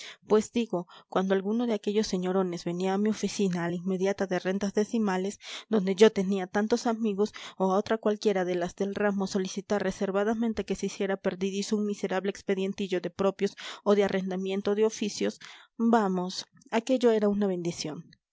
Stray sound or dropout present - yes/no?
no